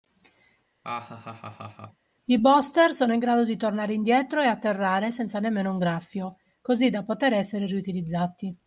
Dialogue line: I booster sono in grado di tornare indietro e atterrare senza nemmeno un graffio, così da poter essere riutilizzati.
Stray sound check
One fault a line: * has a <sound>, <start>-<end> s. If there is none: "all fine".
* has a laugh, 0.8-2.1 s